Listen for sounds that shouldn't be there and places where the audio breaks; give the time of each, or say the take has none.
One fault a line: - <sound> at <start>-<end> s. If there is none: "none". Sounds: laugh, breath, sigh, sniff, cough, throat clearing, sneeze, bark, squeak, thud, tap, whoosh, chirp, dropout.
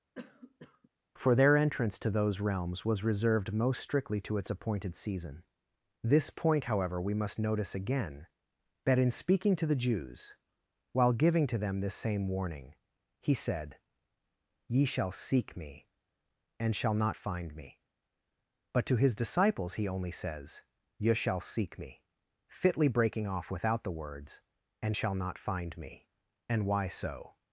- cough at 0.1-0.9 s